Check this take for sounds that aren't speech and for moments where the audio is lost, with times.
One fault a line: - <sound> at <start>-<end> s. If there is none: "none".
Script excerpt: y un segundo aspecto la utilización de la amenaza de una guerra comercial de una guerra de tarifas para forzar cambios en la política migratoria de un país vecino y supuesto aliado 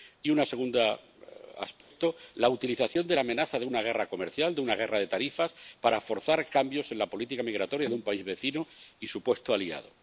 - dropout at 1.8-1.9 s